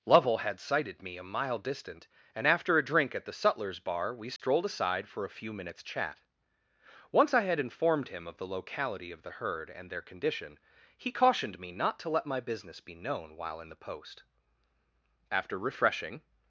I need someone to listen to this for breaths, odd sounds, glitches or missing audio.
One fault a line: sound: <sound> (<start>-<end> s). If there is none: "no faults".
sound: dropout (4.4-4.4 s)